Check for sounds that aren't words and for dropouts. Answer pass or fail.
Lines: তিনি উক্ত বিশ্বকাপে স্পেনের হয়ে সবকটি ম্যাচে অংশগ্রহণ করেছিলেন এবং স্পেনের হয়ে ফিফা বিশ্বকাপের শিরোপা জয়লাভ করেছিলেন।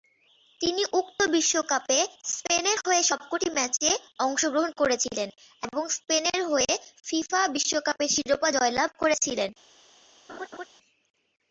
fail